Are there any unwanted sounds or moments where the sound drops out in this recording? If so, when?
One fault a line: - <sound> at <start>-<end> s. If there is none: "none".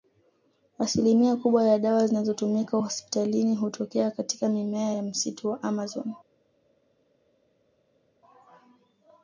none